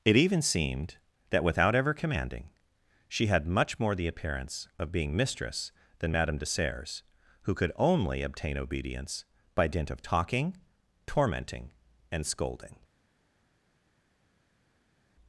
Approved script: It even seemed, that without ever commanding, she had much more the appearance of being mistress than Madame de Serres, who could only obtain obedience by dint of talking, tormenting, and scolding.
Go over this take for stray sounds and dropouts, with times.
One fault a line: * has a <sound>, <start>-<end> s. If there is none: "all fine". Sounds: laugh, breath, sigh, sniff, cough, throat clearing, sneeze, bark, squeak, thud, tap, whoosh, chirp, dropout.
all fine